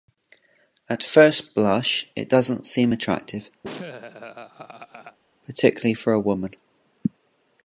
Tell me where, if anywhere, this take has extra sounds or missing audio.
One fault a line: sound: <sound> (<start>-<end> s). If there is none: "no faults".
sound: laugh (3.6-5.2 s)